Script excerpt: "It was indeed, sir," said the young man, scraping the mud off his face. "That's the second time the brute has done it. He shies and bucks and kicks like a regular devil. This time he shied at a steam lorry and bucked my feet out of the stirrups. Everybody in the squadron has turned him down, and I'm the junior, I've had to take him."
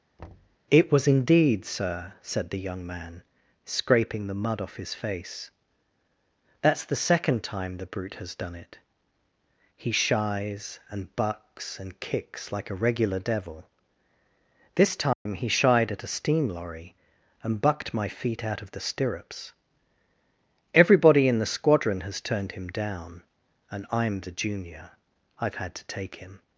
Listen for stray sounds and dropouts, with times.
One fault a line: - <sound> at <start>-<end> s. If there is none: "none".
- thud at 0.2-0.6 s
- dropout at 15.1-15.3 s